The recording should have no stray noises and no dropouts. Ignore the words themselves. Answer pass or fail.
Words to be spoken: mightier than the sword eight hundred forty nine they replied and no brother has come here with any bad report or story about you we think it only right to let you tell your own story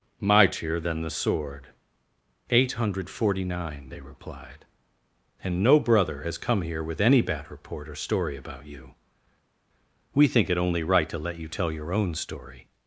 pass